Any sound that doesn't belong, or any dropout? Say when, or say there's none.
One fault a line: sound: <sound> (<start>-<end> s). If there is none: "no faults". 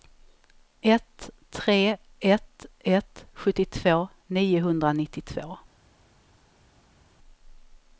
no faults